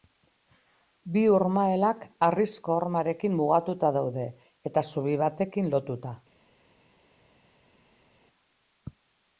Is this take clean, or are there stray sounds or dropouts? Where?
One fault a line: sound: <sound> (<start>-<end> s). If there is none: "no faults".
no faults